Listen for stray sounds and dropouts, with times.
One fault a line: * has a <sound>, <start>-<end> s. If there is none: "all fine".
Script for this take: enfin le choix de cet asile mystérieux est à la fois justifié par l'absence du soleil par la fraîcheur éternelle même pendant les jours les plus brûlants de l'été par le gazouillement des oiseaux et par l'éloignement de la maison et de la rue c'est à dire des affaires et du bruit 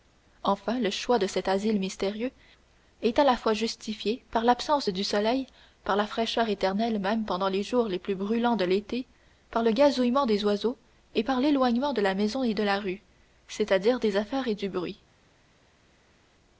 all fine